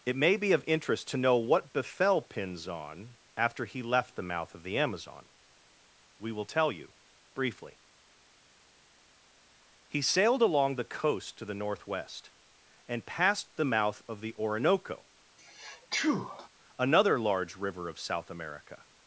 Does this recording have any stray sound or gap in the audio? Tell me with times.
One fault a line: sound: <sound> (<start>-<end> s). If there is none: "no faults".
sound: sneeze (15.4-16.5 s)